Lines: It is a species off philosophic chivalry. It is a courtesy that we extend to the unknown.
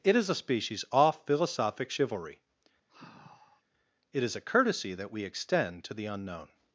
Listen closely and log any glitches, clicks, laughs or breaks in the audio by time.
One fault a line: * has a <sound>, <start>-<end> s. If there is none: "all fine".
* has a sigh, 2.9-3.6 s